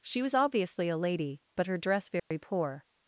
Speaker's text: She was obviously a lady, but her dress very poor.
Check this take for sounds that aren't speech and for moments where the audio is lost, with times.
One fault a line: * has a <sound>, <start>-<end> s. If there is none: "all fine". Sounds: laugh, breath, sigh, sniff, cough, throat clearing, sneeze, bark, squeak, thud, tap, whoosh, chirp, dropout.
* has a dropout, 2.2-2.3 s